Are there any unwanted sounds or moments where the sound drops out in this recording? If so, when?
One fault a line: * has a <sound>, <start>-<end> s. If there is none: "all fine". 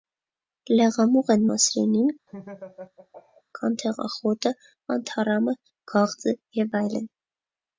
* has a laugh, 2.3-3.4 s